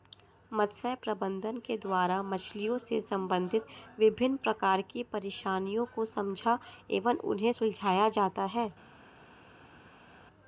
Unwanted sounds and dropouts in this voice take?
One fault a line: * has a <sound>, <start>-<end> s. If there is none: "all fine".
all fine